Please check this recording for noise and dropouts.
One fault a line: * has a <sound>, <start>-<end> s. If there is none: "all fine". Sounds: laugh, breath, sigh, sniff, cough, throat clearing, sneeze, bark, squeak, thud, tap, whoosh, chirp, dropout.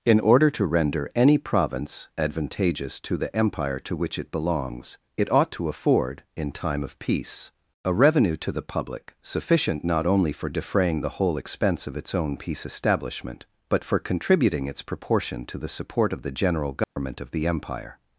* has a dropout, 16.8-17.0 s